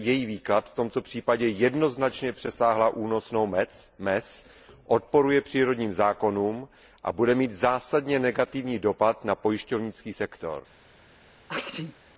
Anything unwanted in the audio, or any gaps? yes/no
yes